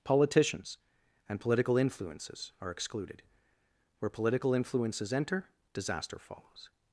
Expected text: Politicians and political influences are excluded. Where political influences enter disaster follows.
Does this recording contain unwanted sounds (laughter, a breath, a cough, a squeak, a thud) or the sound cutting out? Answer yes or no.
no